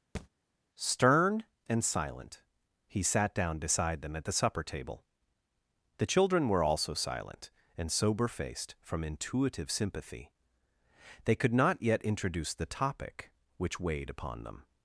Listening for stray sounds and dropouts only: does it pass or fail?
fail